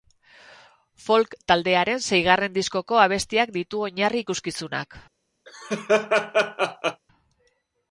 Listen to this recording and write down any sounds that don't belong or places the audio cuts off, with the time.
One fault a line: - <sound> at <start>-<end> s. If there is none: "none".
- laugh at 5.5-7.0 s